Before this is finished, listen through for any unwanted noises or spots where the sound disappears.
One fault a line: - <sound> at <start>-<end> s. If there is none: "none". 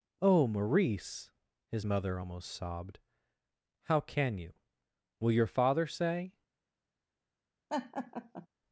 - laugh at 7.7-8.5 s